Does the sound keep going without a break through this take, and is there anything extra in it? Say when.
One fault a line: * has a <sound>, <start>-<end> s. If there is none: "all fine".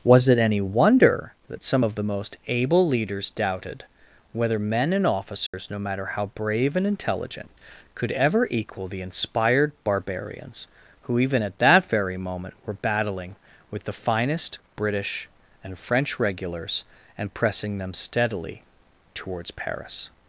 * has a dropout, 5.5-5.5 s